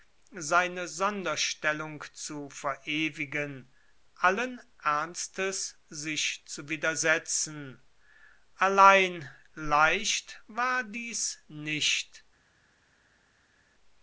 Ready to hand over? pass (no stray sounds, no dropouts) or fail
pass